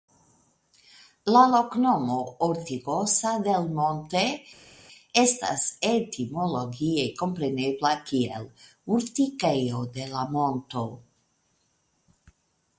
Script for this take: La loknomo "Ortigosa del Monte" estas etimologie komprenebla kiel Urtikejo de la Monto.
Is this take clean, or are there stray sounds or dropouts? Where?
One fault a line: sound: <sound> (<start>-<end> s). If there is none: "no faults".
no faults